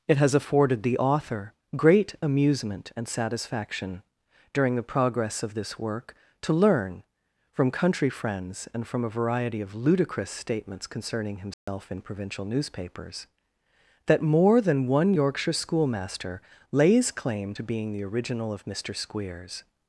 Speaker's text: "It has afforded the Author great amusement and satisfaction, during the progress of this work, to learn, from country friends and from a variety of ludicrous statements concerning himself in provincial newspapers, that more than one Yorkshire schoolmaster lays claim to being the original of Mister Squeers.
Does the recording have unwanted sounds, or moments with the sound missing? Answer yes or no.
yes